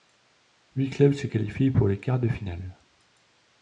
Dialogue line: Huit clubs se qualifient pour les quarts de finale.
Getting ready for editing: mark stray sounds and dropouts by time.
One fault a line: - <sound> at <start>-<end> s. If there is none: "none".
none